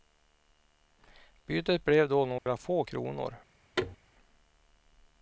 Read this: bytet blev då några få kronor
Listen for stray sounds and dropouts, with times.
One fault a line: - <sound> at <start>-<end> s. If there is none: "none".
- dropout at 2.4-2.5 s
- thud at 3.8-4.0 s